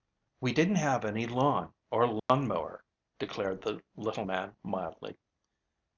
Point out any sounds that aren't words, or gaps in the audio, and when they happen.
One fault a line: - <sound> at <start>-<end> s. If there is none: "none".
- dropout at 2.2-2.3 s